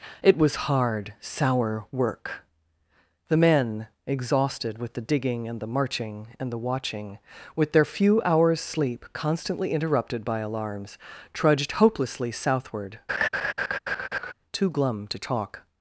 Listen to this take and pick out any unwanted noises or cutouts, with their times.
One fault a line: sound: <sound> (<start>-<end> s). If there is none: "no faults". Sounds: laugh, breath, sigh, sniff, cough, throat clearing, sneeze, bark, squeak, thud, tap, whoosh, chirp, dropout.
sound: laugh (13.1-14.3 s)